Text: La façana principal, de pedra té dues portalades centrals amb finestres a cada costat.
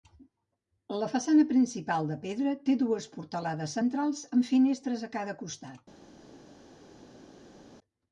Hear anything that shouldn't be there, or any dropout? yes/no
no